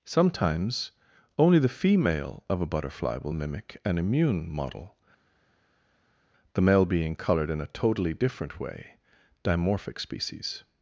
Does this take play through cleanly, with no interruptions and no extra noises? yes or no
yes